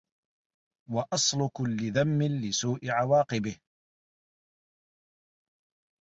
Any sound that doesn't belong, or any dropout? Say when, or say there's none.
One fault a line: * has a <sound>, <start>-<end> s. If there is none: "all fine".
all fine